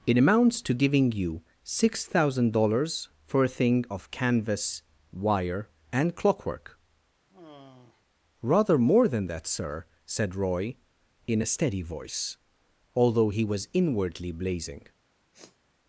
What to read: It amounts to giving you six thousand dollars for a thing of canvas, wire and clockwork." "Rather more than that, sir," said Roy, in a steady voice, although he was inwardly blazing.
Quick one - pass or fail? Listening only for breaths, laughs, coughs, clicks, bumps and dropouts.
fail